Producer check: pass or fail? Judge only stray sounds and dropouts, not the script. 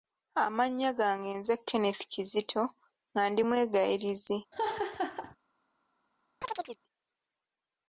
fail